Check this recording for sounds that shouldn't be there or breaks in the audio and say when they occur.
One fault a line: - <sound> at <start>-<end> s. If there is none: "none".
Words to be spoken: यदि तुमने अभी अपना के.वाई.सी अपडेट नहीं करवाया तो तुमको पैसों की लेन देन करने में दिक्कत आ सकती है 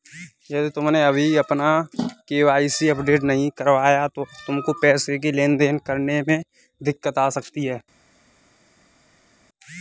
none